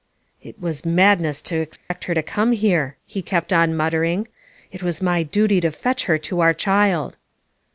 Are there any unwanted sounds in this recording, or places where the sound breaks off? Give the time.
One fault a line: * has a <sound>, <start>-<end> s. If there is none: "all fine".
* has a dropout, 1.8-1.9 s